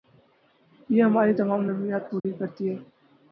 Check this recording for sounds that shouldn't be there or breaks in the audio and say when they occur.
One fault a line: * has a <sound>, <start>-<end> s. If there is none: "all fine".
* has a dropout, 2.2-2.2 s